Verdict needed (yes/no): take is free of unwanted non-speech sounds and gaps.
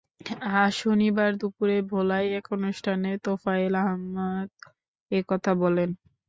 yes